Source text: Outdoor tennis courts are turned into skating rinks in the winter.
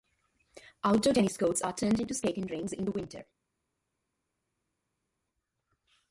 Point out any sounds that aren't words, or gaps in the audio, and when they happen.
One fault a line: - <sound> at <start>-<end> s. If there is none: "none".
none